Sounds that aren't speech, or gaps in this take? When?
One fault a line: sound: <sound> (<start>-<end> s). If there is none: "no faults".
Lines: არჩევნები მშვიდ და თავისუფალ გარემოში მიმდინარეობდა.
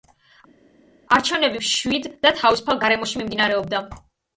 no faults